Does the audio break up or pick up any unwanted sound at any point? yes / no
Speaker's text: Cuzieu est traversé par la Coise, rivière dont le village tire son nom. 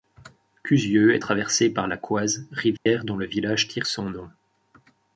yes